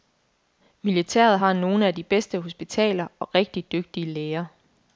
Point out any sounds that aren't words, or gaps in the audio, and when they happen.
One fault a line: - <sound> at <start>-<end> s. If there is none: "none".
none